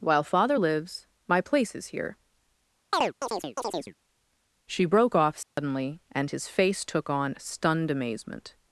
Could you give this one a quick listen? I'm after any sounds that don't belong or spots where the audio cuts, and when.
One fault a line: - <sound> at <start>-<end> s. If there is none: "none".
- chirp at 2.9-3.9 s
- dropout at 5.4-5.6 s